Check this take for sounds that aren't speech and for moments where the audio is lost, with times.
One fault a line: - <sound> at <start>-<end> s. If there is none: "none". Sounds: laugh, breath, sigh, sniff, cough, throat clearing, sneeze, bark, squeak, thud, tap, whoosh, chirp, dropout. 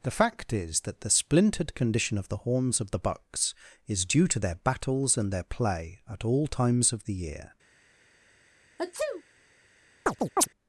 - sneeze at 8.8-9.2 s
- chirp at 10.1-10.5 s